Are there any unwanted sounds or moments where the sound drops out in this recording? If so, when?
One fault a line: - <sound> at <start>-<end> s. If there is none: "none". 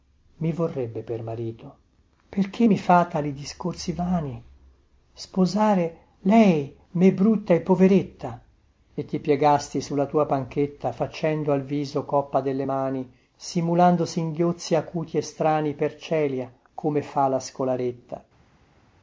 none